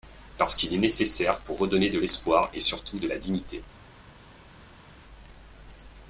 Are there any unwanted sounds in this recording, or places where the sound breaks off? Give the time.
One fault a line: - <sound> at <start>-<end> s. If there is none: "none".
none